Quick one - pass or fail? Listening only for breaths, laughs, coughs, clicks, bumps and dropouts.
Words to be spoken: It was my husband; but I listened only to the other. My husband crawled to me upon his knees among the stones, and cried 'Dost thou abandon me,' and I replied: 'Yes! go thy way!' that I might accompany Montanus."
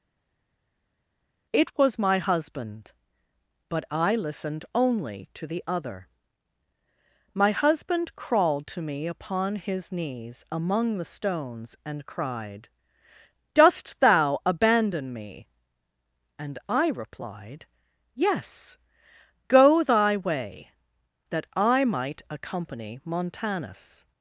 pass